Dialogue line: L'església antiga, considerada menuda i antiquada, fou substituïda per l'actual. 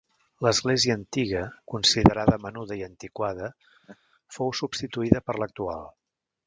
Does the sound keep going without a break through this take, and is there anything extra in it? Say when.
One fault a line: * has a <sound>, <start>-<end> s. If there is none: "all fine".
* has a laugh, 3.8-4.0 s